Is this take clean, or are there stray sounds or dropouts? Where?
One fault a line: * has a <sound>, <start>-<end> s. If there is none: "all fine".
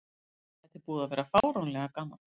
* has a dropout, 1.4-1.4 s